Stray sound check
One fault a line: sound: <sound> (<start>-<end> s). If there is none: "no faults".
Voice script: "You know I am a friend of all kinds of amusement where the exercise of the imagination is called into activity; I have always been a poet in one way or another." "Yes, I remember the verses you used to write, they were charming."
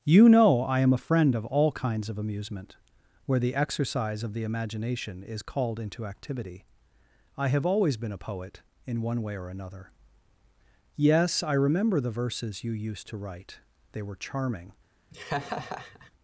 sound: laugh (15.1-16.1 s)